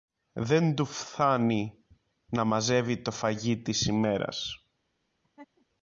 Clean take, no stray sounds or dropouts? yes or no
no